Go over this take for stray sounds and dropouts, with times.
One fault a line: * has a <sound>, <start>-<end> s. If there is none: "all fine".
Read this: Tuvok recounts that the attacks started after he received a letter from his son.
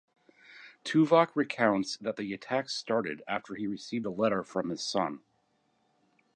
all fine